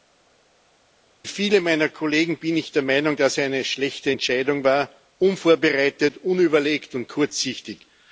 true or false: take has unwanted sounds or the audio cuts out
false